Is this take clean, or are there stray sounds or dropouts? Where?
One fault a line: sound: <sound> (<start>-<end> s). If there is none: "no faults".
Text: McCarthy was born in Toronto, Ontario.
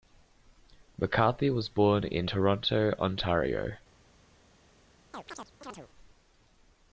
sound: chirp (5.1-5.9 s)